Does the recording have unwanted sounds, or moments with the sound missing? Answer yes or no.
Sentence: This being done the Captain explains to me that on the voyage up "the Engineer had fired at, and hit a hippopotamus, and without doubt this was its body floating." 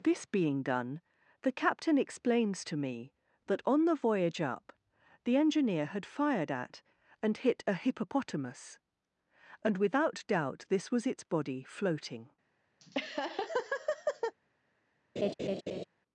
yes